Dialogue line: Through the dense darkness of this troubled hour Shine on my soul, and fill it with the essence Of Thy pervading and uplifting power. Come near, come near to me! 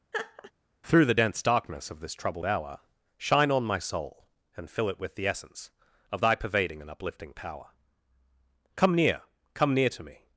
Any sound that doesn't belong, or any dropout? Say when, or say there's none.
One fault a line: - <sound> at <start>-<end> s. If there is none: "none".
- laugh at 0.1-0.5 s